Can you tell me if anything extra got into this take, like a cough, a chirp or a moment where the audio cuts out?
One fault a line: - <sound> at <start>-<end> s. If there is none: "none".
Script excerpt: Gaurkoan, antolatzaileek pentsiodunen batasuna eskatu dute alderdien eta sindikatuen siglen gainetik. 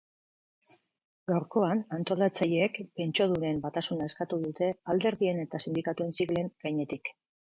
none